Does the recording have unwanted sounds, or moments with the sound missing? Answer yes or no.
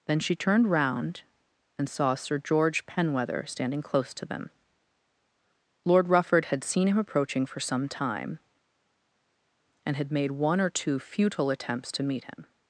no